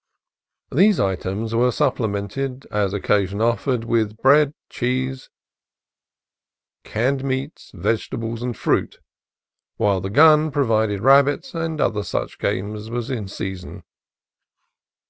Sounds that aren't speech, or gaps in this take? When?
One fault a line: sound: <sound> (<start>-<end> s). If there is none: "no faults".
no faults